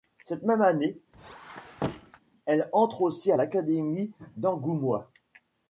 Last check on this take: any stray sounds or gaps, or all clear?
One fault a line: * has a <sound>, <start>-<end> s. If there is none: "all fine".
* has a squeak, 1.1-2.2 s